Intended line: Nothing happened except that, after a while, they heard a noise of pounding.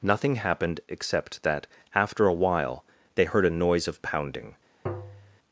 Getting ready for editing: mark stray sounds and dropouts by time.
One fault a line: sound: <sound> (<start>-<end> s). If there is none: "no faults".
sound: tap (4.9-5.4 s)